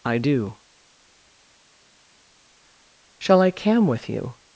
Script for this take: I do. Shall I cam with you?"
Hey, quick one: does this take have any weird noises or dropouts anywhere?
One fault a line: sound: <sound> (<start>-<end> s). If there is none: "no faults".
no faults